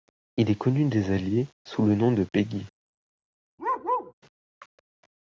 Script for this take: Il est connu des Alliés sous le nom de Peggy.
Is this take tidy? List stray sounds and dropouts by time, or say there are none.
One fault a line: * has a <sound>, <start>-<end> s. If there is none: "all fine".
* has a bark, 3.6-4.1 s